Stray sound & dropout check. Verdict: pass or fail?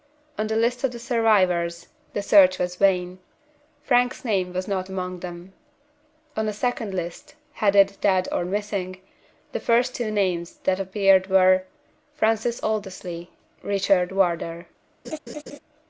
fail